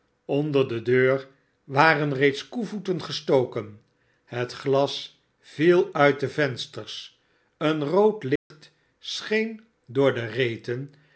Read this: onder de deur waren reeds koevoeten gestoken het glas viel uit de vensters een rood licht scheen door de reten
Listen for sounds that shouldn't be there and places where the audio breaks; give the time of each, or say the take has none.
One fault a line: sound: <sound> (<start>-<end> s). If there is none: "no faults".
sound: dropout (8.4-8.5 s)